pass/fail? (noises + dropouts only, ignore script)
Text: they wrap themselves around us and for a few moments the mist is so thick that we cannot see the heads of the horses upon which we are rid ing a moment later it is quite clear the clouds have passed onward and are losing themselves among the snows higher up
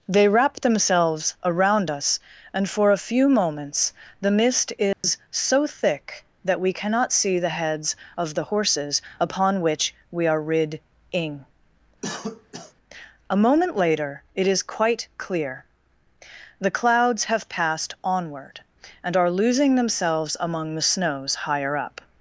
fail